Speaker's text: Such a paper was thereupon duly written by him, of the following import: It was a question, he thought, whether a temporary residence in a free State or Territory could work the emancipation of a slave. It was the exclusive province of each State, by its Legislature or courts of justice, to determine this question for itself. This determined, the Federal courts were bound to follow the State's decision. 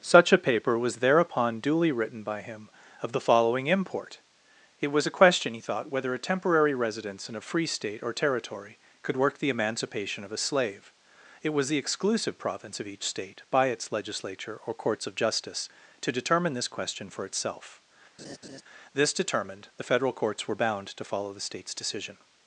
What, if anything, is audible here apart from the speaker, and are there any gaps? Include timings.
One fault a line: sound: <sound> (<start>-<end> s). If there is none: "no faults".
sound: laugh (18.2-18.6 s)